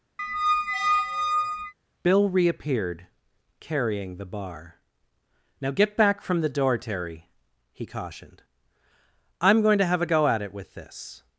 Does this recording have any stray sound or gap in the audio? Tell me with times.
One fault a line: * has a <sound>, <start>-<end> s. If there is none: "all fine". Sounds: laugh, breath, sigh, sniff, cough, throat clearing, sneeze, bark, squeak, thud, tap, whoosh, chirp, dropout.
* has a squeak, 0.2-1.7 s